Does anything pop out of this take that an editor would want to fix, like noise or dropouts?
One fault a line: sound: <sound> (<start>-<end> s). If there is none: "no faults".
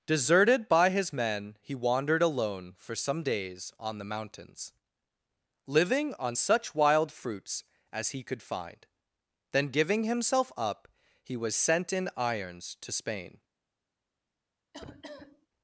sound: cough (14.7-15.5 s)